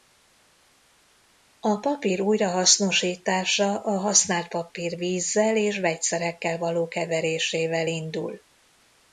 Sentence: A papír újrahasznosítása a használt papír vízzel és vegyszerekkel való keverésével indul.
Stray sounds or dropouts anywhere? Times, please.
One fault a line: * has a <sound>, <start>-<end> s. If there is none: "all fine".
all fine